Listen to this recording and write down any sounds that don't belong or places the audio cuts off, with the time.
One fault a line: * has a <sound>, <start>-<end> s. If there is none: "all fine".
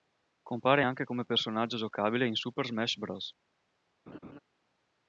* has a laugh, 4.1-4.4 s